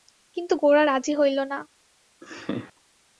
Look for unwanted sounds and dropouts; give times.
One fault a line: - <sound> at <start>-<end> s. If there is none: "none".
- laugh at 2.2-2.7 s